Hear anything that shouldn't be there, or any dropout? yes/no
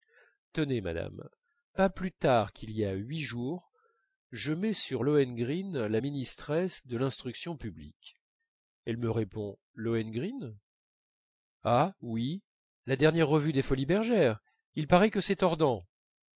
no